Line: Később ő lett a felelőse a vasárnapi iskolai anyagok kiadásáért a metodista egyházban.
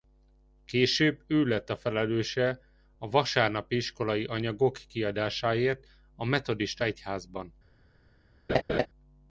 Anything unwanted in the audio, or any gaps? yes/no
yes